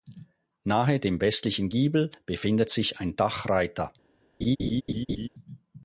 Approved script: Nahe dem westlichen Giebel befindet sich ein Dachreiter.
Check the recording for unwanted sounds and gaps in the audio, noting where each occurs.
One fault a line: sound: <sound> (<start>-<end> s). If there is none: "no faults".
sound: laugh (4.4-5.3 s)